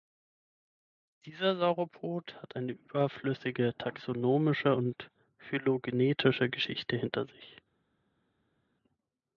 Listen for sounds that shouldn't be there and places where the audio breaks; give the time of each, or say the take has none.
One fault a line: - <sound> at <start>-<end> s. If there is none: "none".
none